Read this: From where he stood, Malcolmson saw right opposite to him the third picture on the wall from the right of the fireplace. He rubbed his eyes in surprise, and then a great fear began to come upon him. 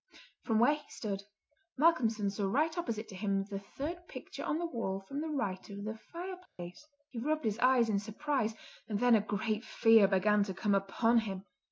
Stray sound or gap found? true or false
true